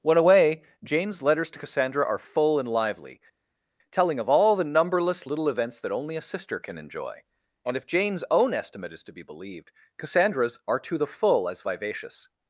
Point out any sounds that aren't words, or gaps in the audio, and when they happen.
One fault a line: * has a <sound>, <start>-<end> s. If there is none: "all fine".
all fine